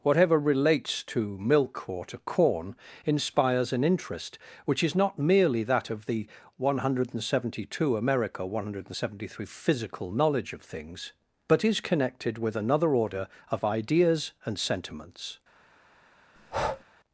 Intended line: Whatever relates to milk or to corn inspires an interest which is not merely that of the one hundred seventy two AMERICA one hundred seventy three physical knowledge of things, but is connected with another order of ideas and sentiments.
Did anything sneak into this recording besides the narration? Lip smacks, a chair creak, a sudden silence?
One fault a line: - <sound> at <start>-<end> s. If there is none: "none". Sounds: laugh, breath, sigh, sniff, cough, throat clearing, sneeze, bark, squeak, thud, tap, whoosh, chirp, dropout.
- breath at 16.4-16.8 s